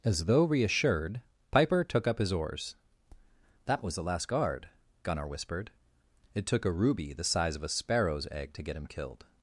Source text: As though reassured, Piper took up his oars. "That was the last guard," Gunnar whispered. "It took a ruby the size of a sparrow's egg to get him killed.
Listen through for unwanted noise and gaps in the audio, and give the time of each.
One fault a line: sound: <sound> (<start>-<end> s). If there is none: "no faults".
no faults